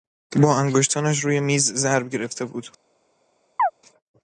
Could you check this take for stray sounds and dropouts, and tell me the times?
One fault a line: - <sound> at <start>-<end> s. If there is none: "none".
- chirp at 3.6-3.7 s